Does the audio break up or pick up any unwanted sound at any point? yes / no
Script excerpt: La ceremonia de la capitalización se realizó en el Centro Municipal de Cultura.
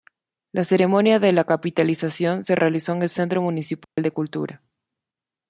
yes